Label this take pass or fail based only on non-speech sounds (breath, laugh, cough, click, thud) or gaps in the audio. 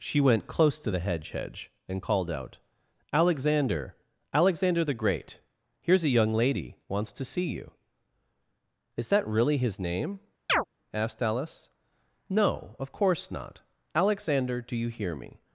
fail